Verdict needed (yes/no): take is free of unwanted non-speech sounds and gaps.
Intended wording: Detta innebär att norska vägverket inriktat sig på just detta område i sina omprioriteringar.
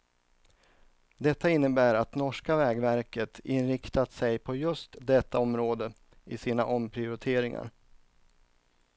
yes